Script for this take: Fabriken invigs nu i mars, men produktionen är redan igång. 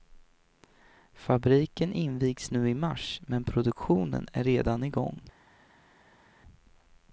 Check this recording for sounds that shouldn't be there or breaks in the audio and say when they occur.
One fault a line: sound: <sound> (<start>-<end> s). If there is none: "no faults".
no faults